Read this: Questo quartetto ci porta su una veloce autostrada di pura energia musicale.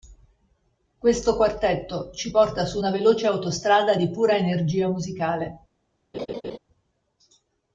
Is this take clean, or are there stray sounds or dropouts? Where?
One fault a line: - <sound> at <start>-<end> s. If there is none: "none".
- laugh at 6.1-6.6 s